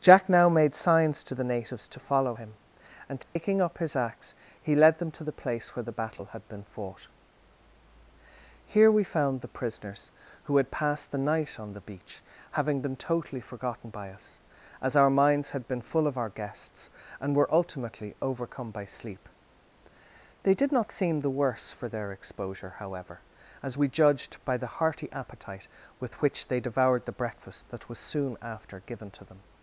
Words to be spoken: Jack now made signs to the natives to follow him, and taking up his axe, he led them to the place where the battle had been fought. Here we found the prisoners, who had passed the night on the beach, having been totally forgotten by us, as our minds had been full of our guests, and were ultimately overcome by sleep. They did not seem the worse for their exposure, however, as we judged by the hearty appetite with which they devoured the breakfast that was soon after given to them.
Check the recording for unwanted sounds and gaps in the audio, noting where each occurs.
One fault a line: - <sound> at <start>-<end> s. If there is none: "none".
- dropout at 3.2-3.4 s